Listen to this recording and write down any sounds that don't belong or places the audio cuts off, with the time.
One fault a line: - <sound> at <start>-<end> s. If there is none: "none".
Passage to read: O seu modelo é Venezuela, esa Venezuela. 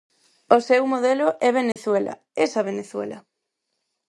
- dropout at 1.7-1.8 s